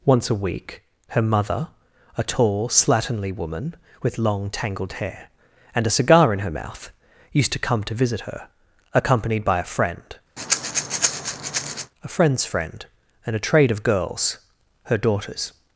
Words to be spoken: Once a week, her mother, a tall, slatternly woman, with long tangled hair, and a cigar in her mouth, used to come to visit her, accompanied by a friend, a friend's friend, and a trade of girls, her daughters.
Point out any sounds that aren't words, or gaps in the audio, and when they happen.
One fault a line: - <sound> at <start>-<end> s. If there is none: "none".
- breath at 10.4-11.9 s